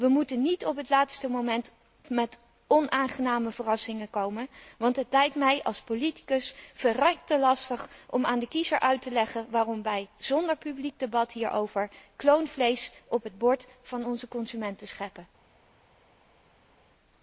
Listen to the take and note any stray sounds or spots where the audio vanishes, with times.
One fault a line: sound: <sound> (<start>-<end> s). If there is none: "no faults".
no faults